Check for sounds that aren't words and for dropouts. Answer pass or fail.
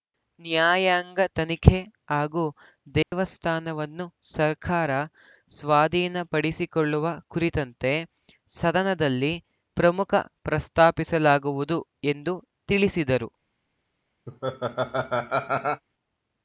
fail